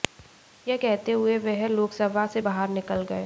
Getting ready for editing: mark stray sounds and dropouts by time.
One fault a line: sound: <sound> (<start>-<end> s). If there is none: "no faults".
no faults